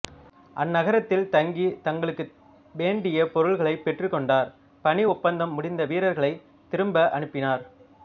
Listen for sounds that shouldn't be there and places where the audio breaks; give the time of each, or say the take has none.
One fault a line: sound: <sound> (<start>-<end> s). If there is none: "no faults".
no faults